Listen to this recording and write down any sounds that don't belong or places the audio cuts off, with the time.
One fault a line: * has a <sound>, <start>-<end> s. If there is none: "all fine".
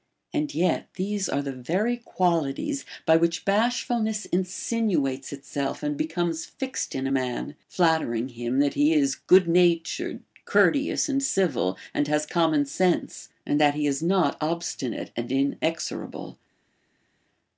all fine